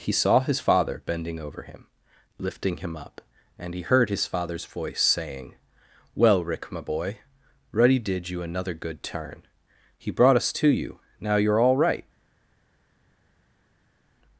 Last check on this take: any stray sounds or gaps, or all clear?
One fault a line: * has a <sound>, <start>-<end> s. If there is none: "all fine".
all fine